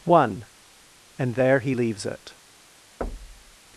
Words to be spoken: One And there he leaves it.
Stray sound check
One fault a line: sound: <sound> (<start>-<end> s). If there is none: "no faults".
sound: thud (3.0-3.6 s)